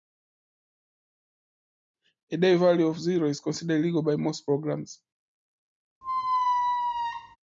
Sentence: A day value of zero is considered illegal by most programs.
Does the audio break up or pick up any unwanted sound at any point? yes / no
yes